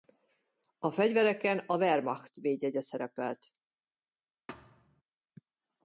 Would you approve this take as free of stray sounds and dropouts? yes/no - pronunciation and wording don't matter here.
no